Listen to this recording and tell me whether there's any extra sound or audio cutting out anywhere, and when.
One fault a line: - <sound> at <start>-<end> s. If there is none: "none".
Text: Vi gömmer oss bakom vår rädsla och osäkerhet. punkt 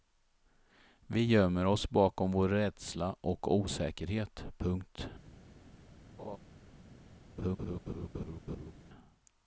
- laugh at 6.2-6.4 s
- laugh at 7.4-8.7 s